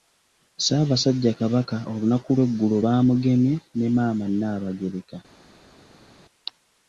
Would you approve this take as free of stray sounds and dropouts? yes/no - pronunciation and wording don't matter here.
yes